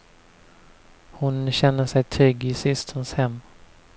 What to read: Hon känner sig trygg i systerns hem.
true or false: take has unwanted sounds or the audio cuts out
false